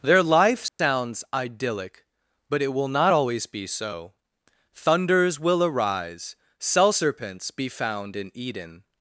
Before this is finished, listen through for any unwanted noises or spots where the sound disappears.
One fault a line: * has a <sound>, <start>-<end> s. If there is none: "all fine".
* has a dropout, 0.7-0.8 s